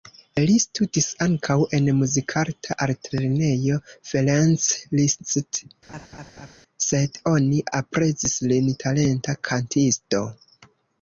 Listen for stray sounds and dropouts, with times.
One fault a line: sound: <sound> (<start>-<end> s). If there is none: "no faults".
sound: laugh (5.9-6.6 s)